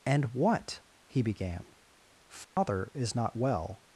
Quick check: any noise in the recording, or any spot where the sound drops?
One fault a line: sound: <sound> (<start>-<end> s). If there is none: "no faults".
sound: dropout (2.4-2.6 s)